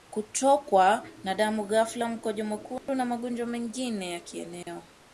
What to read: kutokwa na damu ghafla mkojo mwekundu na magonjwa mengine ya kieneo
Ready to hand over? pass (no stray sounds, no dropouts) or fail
fail